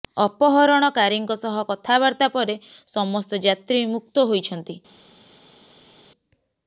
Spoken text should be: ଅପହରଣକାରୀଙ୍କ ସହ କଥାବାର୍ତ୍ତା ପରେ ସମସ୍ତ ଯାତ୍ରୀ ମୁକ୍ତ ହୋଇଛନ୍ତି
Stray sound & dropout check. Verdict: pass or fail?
pass